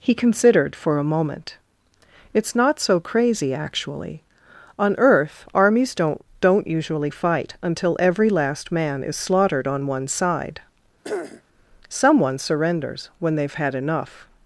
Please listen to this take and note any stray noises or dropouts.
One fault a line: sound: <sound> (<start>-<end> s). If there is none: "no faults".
sound: throat clearing (11.0-11.4 s)